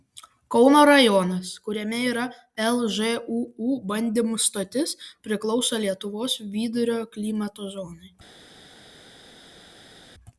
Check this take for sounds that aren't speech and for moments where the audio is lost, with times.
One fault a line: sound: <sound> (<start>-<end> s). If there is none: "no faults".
no faults